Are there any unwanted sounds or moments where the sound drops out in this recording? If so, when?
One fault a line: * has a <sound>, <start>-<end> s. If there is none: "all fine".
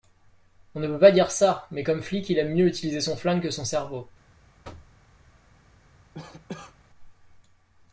* has a thud, 4.6-5.0 s
* has a cough, 6.1-6.8 s